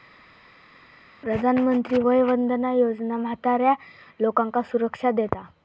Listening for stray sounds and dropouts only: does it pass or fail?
pass